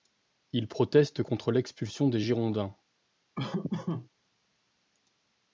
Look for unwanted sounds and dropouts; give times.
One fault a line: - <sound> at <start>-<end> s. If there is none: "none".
- laugh at 3.3-4.1 s